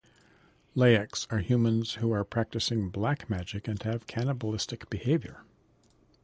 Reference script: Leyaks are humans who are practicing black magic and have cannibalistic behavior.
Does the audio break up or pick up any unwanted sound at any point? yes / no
no